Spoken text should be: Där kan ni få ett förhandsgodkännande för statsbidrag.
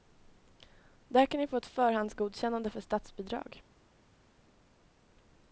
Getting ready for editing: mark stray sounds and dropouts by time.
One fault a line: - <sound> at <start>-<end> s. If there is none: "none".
none